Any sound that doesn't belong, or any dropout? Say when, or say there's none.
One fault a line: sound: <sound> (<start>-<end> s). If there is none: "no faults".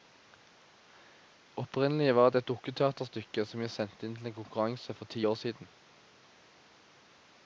no faults